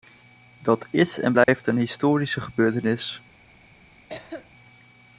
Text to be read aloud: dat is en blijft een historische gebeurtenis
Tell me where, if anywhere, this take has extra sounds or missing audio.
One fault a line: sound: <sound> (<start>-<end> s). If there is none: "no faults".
sound: dropout (1.4-1.5 s)
sound: cough (4.1-4.5 s)